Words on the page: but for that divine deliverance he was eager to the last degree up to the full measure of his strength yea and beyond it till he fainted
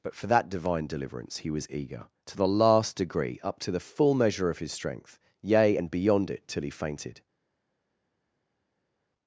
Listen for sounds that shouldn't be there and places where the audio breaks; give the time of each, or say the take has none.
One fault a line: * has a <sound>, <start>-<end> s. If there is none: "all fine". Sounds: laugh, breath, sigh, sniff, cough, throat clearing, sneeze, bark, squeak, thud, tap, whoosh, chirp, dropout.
all fine